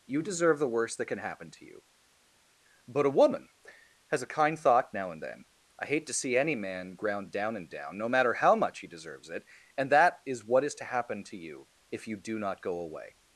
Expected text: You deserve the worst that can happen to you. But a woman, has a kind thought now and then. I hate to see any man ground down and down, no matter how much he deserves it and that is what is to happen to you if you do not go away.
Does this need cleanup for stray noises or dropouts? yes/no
no